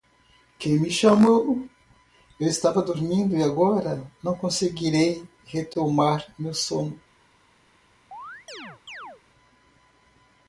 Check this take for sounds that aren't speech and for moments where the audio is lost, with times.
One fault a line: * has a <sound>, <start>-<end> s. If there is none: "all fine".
* has a chirp, 8.1-9.2 s